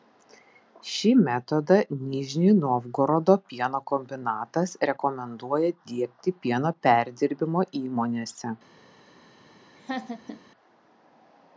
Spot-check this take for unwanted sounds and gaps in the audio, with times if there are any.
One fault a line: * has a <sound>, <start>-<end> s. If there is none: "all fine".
* has a laugh, 9.8-10.4 s